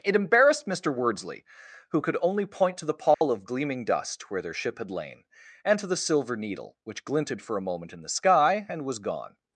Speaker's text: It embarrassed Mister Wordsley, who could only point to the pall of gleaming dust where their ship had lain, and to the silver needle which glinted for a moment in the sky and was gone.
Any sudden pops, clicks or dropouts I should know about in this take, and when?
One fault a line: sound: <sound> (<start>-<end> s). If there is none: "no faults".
sound: dropout (3.1-3.2 s)